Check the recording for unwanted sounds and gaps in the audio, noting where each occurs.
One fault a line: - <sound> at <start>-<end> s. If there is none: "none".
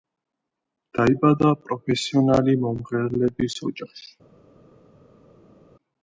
none